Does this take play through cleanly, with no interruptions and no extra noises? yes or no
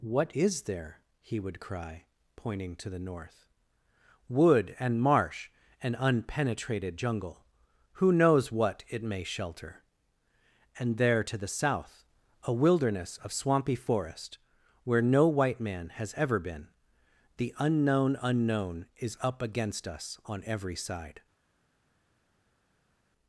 yes